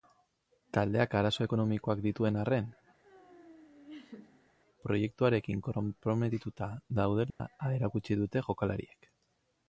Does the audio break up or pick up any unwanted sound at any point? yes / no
yes